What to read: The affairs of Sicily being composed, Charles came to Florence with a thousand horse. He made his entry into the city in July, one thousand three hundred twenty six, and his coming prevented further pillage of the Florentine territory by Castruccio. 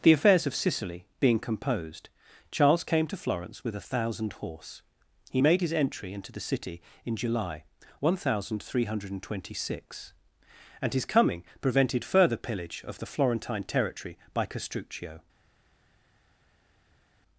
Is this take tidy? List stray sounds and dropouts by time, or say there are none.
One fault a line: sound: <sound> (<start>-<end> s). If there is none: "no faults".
no faults